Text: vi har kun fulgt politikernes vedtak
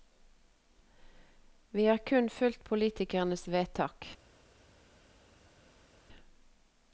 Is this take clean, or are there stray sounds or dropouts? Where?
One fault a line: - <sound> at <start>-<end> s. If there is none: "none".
none